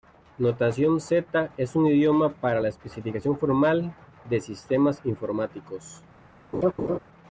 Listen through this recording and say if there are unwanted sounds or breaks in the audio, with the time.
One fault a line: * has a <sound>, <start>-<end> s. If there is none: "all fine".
* has a laugh, 6.5-7.0 s